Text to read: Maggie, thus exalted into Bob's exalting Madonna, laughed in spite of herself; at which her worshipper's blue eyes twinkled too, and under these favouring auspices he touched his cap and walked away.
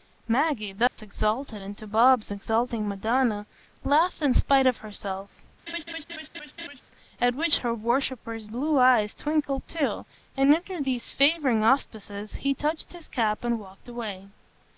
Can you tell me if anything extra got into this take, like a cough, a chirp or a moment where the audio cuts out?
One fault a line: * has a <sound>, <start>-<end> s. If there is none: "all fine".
* has a dropout, 0.9-1.0 s
* has a laugh, 5.7-6.8 s